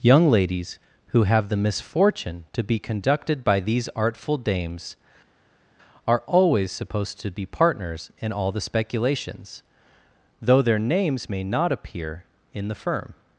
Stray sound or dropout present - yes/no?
no